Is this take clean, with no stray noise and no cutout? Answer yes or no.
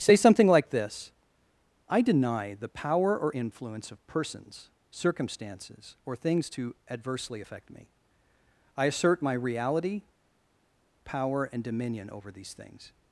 yes